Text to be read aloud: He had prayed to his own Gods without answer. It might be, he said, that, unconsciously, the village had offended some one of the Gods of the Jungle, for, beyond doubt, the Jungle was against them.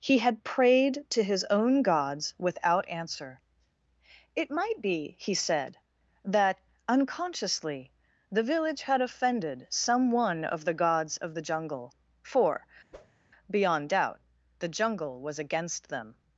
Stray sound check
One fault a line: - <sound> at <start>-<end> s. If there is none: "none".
- whoosh at 12.9-13.2 s